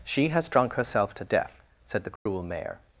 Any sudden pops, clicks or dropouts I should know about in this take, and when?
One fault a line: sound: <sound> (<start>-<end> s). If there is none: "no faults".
sound: dropout (2.2-2.3 s)